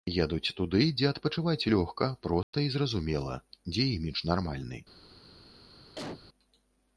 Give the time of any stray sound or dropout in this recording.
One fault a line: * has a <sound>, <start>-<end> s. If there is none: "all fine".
* has a dropout, 2.4-2.5 s
* has a cough, 6.0-6.2 s